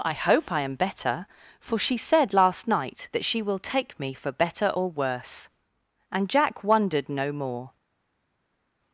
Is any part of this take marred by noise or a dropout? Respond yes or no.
no